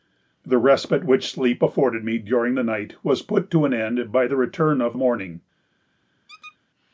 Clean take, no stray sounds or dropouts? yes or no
no